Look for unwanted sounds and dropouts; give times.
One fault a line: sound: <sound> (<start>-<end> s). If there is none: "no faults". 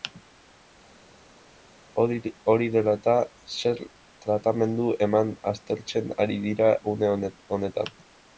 no faults